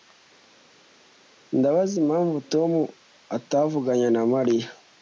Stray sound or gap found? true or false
false